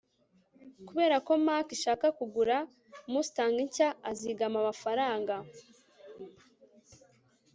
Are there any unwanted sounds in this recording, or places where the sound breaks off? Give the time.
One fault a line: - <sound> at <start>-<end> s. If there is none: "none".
none